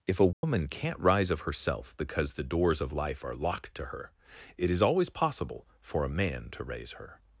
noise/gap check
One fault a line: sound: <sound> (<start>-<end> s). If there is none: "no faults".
sound: dropout (0.3-0.4 s)